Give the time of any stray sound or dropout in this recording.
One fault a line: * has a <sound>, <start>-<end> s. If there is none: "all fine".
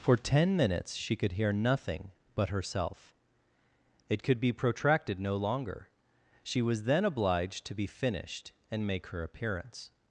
all fine